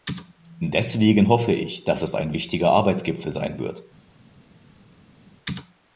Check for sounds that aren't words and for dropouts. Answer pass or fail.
pass